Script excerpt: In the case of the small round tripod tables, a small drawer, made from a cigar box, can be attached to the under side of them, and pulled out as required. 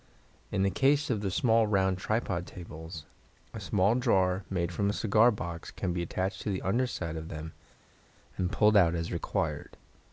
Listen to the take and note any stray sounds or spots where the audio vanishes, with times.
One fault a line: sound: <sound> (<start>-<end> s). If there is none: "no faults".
no faults